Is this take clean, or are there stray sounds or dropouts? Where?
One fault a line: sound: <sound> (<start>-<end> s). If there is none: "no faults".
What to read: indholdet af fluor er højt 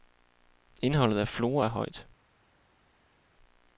no faults